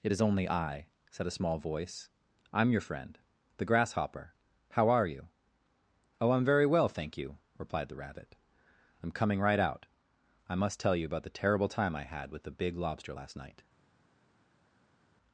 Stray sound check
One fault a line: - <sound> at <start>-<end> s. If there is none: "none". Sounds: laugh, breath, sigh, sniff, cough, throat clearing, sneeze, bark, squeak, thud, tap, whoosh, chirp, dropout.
none